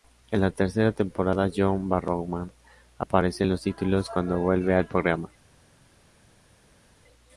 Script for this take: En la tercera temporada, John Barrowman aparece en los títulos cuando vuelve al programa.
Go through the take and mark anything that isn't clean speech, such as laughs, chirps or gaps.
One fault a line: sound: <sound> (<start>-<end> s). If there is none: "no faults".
no faults